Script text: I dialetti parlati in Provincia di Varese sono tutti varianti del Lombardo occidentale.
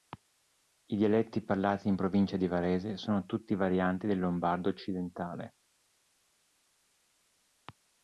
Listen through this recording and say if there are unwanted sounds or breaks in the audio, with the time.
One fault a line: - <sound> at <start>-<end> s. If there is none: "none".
none